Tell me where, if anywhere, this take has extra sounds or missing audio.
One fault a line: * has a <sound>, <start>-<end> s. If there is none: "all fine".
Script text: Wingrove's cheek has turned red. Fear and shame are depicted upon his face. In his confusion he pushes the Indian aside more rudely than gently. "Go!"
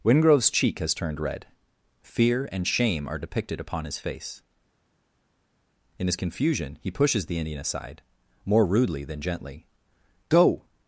all fine